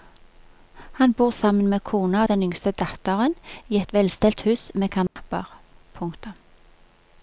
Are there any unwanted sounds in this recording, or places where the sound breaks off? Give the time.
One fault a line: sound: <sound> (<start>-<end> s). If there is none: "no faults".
sound: dropout (5.1-5.2 s)